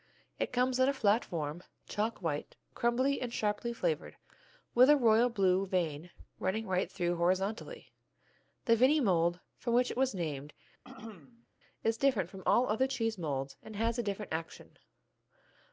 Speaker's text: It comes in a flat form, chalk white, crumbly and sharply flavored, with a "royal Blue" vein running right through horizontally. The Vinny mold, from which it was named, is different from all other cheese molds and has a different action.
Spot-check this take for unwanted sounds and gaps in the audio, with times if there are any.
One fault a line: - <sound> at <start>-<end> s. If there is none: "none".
- throat clearing at 10.8-11.5 s